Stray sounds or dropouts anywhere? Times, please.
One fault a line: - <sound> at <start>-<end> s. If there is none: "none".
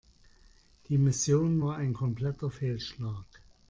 none